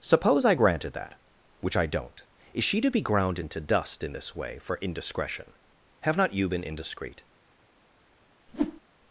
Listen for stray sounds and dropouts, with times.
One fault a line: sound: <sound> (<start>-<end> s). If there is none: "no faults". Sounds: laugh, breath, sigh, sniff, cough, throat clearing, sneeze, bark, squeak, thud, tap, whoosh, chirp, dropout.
sound: whoosh (8.5-8.8 s)